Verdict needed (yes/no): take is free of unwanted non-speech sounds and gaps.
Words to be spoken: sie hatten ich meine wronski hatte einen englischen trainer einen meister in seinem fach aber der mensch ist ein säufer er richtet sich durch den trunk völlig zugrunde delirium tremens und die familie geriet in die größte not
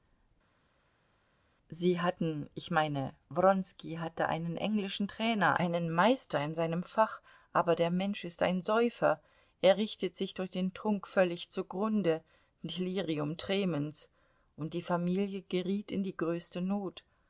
yes